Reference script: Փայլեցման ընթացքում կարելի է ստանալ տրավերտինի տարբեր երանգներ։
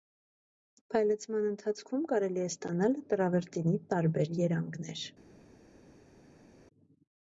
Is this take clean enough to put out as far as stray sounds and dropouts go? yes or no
yes